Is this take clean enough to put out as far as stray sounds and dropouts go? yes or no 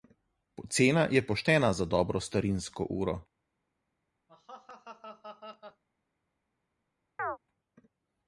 no